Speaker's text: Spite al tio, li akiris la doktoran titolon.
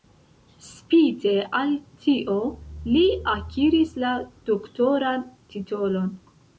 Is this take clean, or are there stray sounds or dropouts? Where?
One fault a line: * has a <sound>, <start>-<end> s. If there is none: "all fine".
all fine